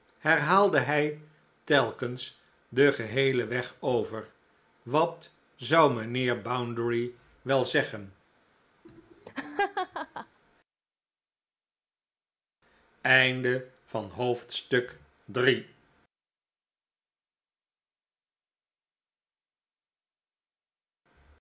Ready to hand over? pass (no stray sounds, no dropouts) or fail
fail